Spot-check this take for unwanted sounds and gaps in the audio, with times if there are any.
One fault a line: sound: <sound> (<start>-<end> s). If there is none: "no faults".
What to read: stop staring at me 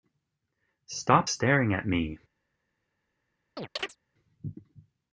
sound: chirp (3.6-4.0 s)